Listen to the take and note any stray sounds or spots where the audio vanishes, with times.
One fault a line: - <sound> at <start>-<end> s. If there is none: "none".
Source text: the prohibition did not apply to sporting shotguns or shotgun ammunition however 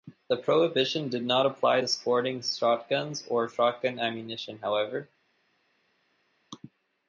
none